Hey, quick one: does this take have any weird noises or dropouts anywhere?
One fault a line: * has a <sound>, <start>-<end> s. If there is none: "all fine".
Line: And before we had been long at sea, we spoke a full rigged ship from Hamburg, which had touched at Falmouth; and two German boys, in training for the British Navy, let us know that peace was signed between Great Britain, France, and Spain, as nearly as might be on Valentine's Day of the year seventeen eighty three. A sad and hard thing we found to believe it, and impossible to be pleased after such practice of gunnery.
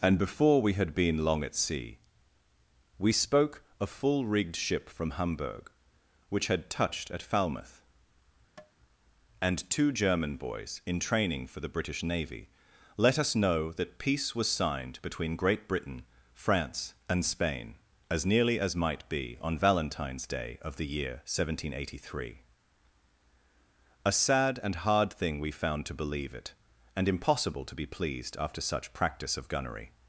* has a tap, 8.6-8.7 s